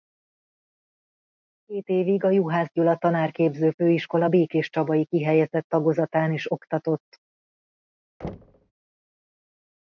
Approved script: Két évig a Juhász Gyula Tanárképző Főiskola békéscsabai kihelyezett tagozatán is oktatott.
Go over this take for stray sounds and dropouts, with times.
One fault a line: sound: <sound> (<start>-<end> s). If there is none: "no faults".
sound: thud (8.2-8.7 s)